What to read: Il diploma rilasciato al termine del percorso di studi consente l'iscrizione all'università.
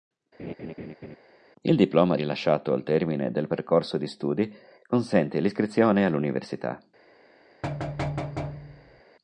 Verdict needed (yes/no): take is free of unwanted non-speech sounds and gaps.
no